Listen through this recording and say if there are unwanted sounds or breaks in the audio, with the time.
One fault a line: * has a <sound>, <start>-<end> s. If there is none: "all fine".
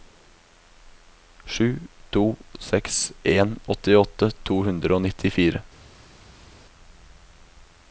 all fine